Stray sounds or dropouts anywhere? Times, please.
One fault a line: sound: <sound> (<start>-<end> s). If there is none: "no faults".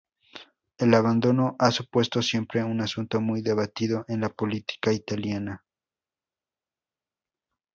no faults